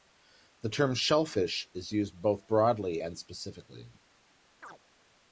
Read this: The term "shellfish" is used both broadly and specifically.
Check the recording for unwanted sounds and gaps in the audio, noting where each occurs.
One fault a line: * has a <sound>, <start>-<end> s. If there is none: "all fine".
* has a chirp, 4.6-4.8 s